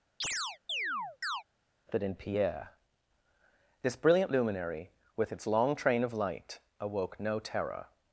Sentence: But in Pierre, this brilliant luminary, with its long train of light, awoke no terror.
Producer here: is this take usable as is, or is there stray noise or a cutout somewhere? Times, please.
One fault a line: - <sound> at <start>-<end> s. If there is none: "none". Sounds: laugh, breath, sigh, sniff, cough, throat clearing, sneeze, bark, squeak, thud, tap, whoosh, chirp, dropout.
- chirp at 0.2-1.4 s